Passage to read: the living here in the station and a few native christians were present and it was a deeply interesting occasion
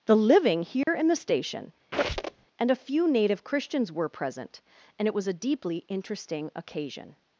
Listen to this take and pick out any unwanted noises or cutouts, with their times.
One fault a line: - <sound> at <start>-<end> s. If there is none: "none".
- dropout at 0.8-0.9 s
- squeak at 1.9-2.5 s